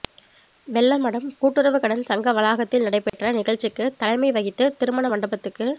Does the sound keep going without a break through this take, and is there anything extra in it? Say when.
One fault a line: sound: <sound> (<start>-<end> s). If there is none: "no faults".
sound: dropout (3.1-3.1 s)